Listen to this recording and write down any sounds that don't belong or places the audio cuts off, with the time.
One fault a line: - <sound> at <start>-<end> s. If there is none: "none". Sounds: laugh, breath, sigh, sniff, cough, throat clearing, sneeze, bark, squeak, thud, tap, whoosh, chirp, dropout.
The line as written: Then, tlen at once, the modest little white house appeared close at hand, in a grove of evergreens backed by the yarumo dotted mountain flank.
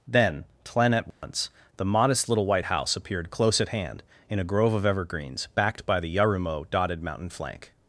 - dropout at 1.1-1.2 s